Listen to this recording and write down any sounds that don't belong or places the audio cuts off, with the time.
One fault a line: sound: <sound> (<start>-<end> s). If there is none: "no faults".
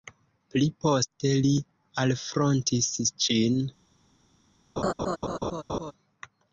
sound: laugh (4.8-5.9 s)